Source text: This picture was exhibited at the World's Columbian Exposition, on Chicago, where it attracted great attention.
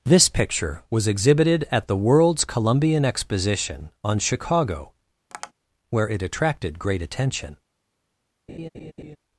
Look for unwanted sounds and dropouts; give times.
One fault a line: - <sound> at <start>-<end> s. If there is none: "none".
- tap at 5.3-5.5 s
- laugh at 8.5-9.2 s